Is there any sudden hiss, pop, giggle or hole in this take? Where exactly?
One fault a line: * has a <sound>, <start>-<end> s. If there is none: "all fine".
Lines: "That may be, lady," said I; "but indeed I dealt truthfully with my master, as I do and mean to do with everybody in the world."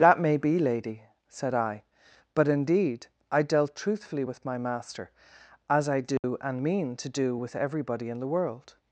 * has a dropout, 6.2-6.2 s